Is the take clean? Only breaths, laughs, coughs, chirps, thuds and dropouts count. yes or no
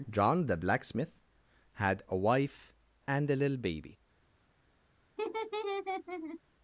no